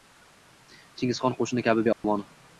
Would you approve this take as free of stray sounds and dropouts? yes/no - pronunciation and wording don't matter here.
no